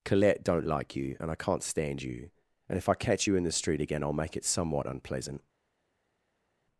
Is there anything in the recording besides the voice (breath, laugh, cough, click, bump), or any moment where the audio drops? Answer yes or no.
no